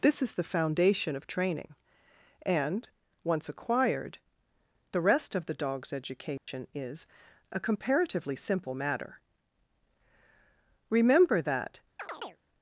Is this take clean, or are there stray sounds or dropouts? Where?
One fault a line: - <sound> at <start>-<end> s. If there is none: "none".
- dropout at 6.4-6.5 s
- chirp at 12.0-12.4 s